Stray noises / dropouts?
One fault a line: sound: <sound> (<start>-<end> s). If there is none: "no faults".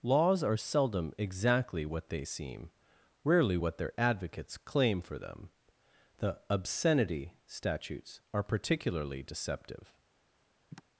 sound: sigh (10.7-10.8 s)